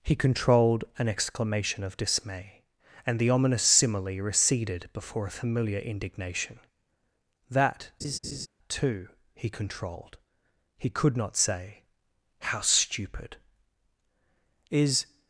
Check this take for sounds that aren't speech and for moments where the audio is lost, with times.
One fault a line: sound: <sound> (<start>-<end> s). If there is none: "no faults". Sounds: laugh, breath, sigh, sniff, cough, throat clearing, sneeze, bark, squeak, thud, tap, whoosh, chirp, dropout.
sound: laugh (8.0-8.5 s)